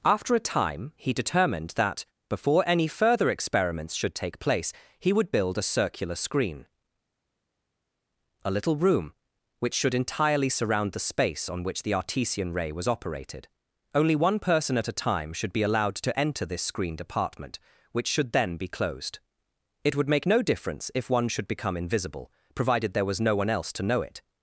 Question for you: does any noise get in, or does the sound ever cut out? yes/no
no